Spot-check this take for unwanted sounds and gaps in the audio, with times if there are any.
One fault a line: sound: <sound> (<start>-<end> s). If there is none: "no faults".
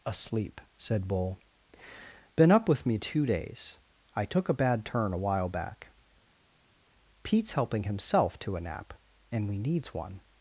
no faults